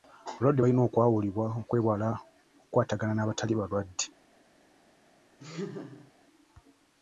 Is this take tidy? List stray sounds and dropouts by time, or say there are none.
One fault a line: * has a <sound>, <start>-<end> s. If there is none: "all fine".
* has a laugh, 5.4-6.1 s